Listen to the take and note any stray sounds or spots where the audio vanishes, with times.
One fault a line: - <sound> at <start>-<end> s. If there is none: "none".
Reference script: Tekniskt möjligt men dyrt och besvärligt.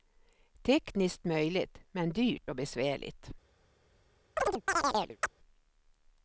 - chirp at 4.4-5.3 s